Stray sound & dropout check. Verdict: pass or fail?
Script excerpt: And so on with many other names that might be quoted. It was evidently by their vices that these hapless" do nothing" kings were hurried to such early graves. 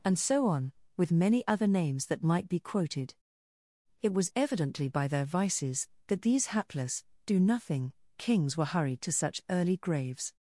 pass